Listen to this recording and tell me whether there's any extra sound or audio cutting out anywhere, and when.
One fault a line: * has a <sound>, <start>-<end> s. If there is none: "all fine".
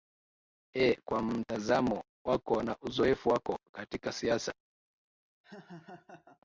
* has a laugh, 5.4-6.4 s